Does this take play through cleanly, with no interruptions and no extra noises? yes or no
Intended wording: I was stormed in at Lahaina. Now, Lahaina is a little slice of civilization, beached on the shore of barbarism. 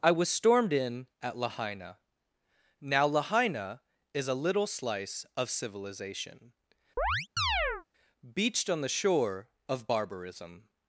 no